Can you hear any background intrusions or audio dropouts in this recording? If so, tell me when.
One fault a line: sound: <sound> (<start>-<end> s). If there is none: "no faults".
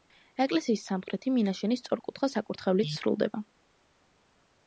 no faults